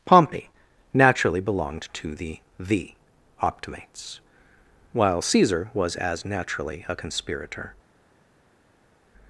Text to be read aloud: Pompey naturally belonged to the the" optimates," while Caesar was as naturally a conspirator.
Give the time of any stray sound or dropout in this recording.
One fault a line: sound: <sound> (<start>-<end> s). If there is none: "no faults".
no faults